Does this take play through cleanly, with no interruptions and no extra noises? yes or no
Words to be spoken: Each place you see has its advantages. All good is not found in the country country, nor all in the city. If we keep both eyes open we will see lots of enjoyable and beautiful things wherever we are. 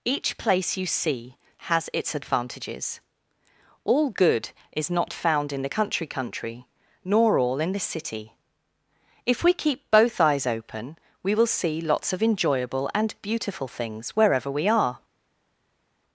yes